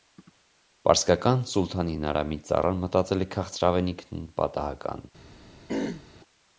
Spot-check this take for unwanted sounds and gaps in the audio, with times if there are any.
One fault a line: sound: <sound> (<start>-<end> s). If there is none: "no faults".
sound: throat clearing (5.7-6.0 s)